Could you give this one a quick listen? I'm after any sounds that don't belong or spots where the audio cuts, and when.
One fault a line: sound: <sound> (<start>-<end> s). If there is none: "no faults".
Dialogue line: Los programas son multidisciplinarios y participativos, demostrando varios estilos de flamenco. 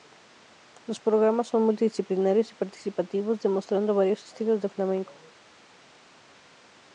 no faults